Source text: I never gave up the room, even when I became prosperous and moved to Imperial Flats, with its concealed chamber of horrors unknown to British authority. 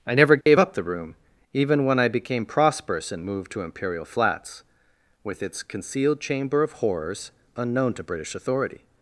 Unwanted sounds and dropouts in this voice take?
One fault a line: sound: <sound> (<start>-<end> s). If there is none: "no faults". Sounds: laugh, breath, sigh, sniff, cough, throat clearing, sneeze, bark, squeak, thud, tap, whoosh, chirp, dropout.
sound: dropout (0.4-0.5 s)